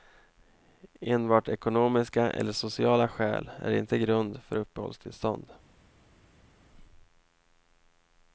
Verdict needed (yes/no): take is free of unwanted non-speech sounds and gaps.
yes